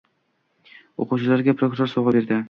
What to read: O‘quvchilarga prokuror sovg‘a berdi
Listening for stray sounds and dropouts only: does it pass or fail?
pass